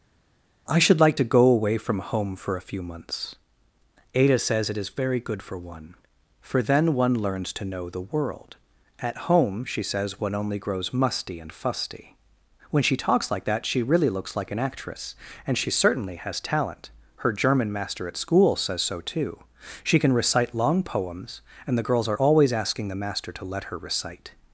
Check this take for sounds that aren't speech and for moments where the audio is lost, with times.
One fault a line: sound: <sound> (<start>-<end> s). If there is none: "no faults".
no faults